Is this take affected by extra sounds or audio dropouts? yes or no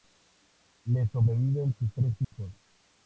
yes